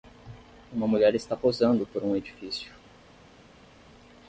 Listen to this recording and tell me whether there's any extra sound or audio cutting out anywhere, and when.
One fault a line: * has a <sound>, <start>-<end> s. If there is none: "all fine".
all fine